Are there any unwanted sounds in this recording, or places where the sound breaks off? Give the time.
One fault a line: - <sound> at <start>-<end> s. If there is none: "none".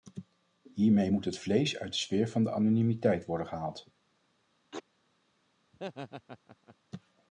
- sneeze at 4.7-4.8 s
- laugh at 5.7-6.8 s